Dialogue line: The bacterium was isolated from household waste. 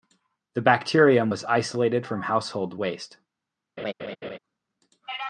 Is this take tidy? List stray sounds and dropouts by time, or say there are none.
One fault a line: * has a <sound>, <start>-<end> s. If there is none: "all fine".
* has a laugh, 3.8-4.4 s